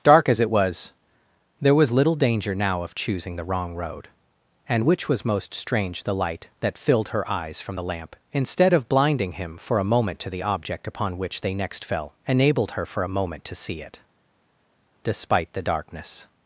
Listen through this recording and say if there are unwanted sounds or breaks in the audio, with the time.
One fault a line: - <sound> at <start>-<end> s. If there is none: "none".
none